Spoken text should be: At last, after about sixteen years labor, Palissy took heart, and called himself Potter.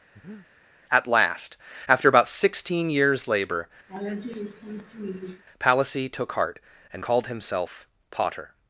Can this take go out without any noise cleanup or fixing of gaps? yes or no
no